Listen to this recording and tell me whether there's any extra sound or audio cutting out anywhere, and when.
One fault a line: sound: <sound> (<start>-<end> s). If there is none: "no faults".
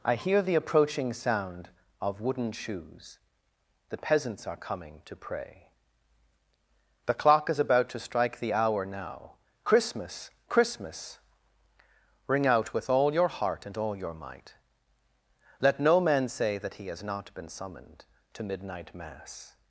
no faults